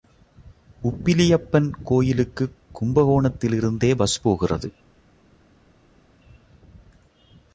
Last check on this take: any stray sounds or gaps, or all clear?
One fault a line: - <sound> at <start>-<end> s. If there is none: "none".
none